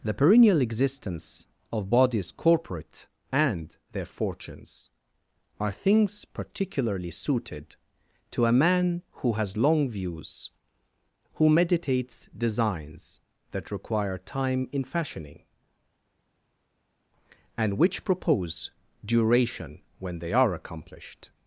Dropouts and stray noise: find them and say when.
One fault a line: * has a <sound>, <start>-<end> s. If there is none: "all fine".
all fine